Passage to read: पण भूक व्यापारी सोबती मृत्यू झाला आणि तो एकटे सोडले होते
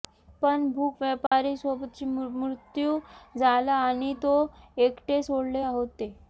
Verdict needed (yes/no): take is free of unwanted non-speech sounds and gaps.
no